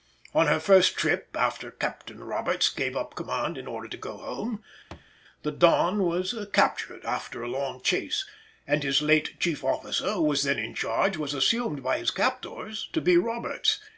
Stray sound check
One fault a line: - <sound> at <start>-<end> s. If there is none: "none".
- thud at 4.9-5.1 s